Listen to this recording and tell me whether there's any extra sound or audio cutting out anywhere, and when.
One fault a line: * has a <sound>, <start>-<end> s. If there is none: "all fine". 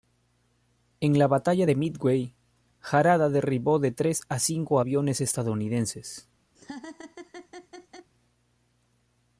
* has a laugh, 6.5-8.1 s